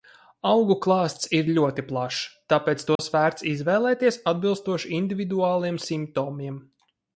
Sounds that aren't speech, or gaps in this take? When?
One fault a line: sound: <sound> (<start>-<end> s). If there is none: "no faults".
sound: dropout (3.0-3.0 s)